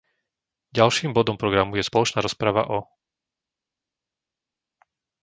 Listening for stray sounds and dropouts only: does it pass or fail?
pass